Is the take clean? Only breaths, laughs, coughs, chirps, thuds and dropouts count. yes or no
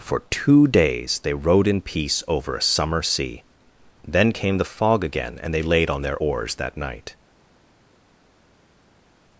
yes